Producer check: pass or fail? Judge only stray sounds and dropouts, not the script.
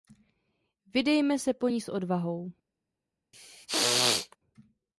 fail